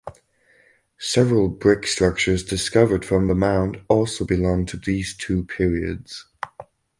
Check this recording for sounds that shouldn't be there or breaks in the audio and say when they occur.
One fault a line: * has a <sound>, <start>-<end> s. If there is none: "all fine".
all fine